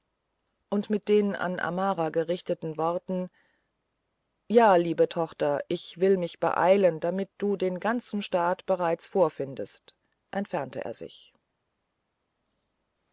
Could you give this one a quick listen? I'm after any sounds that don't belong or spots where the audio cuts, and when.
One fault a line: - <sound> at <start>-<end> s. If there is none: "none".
none